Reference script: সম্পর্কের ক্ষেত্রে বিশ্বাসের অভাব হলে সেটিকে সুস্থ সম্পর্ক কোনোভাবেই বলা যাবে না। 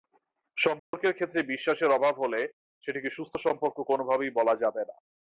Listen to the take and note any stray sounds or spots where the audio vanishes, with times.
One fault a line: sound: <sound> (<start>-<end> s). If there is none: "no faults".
sound: dropout (0.8-0.9 s)